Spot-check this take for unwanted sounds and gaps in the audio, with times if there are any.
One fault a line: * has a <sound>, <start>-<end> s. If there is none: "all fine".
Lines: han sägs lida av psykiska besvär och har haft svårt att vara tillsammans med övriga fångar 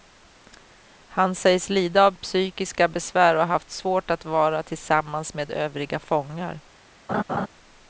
* has a laugh, 7.1-7.5 s